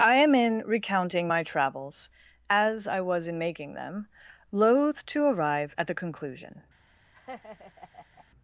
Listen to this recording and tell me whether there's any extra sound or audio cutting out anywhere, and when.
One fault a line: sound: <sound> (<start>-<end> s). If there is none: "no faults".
sound: laugh (7.1-8.3 s)